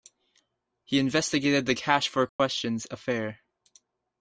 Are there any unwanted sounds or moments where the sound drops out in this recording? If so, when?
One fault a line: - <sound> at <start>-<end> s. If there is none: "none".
- dropout at 2.3-2.4 s